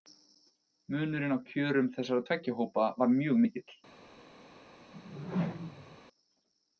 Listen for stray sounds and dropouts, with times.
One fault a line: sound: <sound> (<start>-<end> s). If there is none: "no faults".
sound: whoosh (4.9-6.0 s)